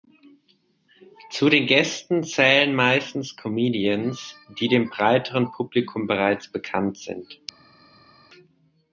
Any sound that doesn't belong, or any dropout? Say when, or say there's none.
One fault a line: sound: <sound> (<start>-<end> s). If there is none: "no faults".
no faults